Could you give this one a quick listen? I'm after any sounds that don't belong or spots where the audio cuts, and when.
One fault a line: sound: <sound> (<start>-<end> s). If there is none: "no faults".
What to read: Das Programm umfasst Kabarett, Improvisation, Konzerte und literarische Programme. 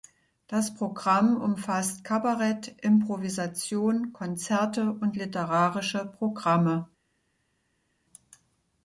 no faults